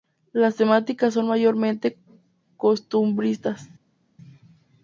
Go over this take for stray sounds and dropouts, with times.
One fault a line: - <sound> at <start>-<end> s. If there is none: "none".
none